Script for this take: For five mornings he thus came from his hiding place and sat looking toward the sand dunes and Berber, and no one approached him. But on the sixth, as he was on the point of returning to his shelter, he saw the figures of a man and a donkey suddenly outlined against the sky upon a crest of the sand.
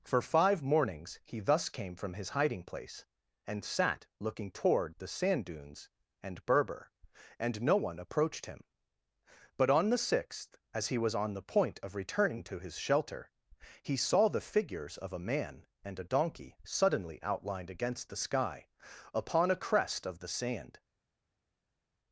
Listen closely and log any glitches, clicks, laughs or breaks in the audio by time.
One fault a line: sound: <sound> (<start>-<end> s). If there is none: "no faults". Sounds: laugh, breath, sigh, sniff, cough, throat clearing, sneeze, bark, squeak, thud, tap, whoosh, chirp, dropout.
no faults